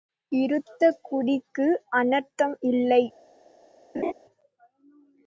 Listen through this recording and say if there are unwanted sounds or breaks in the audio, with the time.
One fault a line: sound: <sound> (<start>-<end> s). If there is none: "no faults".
sound: laugh (3.9-4.1 s)